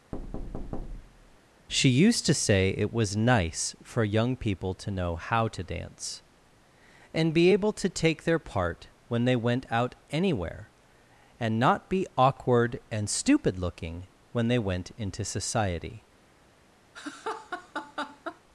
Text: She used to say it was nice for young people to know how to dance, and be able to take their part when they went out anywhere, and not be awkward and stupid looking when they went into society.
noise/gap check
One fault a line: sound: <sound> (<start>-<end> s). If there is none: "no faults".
sound: thud (0.1-1.4 s)
sound: laugh (16.9-18.4 s)